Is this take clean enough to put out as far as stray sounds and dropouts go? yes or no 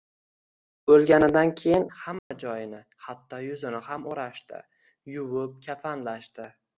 no